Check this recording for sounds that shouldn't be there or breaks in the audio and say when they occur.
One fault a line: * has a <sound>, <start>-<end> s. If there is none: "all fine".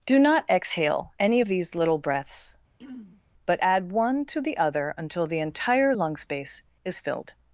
* has a throat clearing, 2.8-3.2 s